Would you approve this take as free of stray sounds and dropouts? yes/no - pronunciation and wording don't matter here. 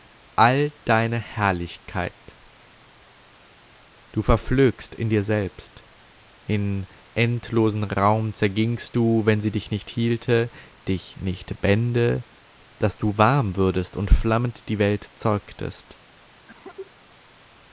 no